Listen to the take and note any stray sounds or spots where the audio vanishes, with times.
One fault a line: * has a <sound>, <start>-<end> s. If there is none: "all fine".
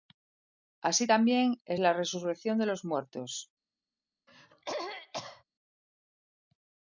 * has a throat clearing, 4.3-5.4 s